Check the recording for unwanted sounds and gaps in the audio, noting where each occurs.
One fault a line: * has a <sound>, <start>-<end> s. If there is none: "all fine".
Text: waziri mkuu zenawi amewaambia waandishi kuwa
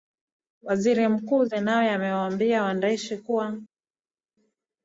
all fine